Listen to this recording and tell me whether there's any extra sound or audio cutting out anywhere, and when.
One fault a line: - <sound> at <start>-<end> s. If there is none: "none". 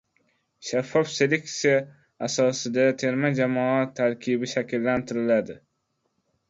none